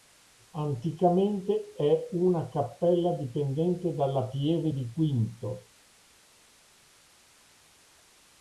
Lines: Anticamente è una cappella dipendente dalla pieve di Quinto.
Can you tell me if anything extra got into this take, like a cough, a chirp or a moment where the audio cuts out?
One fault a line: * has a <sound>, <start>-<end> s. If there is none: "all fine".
all fine